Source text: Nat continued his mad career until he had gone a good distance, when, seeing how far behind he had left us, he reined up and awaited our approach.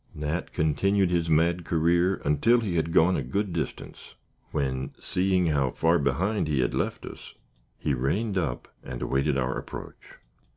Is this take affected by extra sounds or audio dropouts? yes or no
no